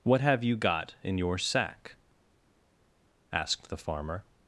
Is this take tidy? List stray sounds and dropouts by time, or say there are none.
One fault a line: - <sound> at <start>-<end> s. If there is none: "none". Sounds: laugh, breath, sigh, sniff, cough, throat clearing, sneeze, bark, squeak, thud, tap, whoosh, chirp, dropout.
none